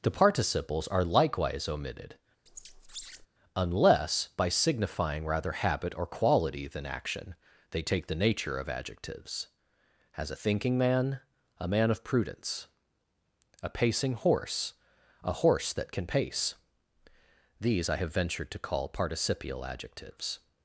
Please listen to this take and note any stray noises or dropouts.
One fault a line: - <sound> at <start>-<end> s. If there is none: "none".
- squeak at 2.5-3.3 s